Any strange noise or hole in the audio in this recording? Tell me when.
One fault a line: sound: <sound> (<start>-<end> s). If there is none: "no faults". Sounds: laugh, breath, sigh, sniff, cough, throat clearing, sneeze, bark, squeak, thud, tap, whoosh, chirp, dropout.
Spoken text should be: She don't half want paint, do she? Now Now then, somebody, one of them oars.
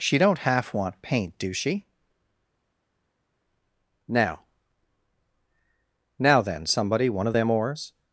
no faults